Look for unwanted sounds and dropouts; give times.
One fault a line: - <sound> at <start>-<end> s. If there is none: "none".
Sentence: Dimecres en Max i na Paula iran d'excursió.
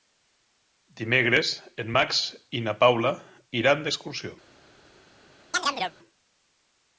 - chirp at 5.5-6.0 s